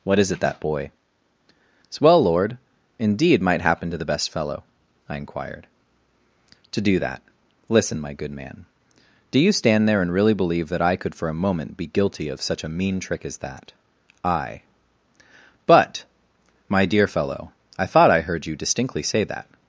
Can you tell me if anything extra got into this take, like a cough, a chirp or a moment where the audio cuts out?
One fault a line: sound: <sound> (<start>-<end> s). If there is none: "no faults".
no faults